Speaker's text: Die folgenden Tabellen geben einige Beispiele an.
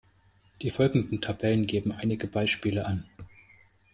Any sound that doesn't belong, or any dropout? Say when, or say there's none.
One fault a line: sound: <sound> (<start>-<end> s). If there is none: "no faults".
no faults